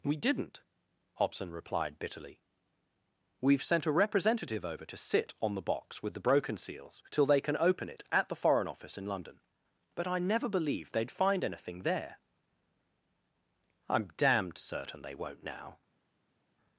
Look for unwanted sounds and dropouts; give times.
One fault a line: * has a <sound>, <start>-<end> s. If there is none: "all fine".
all fine